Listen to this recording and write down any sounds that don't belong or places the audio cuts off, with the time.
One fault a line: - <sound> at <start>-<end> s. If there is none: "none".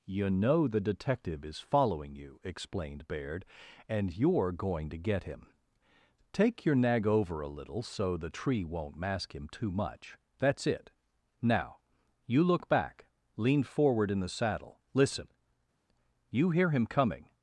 none